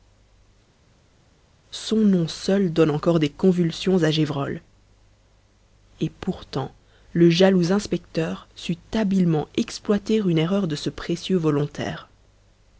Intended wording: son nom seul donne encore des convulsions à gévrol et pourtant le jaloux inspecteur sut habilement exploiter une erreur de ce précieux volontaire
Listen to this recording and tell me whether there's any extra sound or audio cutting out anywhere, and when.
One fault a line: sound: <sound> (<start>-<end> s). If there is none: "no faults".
no faults